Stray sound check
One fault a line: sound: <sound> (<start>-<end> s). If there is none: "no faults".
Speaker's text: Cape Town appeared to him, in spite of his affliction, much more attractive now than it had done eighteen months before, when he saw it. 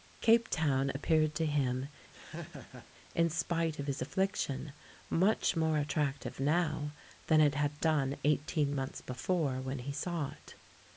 sound: laugh (2.1-2.9 s)